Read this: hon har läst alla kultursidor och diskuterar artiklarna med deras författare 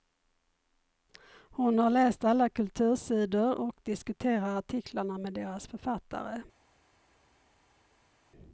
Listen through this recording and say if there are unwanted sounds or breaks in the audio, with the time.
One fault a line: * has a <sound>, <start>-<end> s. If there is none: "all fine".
all fine